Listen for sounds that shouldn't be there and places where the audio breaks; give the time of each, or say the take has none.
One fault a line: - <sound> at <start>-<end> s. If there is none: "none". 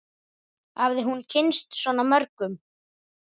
none